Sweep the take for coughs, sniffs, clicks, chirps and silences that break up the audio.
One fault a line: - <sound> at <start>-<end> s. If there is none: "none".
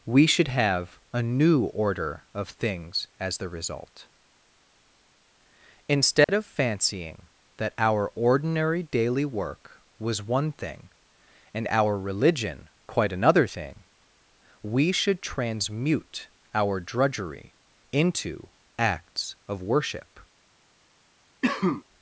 - dropout at 6.2-6.3 s
- cough at 21.4-21.8 s